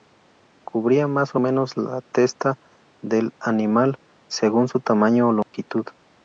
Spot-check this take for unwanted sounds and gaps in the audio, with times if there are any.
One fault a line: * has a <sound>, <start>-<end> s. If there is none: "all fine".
* has a dropout, 5.4-5.5 s